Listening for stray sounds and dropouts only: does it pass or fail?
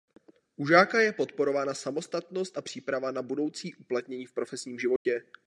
fail